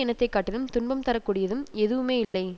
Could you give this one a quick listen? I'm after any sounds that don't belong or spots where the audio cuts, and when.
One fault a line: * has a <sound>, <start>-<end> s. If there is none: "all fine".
* has a dropout, 2.2-2.3 s